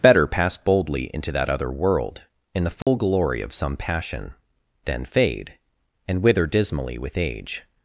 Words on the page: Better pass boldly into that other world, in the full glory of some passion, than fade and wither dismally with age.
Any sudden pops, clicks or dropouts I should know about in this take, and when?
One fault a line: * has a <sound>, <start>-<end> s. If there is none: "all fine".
* has a dropout, 2.8-2.9 s